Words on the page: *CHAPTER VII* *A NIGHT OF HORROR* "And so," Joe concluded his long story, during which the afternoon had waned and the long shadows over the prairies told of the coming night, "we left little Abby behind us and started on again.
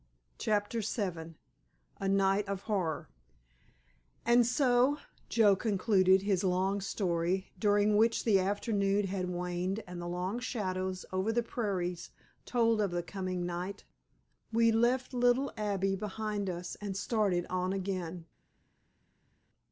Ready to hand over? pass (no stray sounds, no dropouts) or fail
pass